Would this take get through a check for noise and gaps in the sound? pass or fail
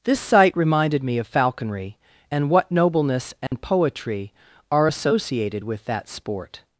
fail